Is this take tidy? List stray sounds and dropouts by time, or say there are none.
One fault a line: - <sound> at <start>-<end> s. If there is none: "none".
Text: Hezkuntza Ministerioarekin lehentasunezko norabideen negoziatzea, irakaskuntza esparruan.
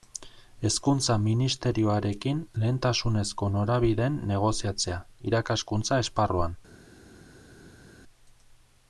none